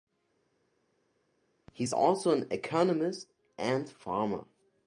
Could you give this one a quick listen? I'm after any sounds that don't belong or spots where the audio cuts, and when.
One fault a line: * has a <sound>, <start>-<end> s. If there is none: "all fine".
all fine